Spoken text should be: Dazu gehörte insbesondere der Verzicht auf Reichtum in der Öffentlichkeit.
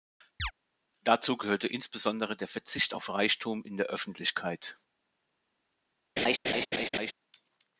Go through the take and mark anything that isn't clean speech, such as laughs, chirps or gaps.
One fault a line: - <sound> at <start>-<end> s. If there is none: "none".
- chirp at 0.4-0.5 s
- laugh at 6.2-7.1 s